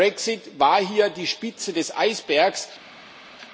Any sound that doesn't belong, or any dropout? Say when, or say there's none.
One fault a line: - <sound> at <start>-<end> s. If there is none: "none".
none